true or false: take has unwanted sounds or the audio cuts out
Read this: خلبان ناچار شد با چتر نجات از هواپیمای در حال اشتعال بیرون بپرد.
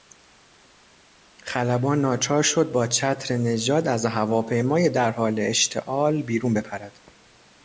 false